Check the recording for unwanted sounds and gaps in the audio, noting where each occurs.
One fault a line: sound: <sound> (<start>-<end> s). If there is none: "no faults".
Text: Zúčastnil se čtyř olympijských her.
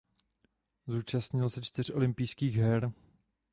no faults